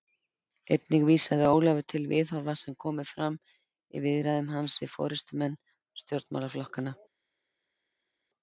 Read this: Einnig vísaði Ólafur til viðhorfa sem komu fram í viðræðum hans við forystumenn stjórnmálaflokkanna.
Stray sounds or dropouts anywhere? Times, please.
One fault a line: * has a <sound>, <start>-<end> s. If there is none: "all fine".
all fine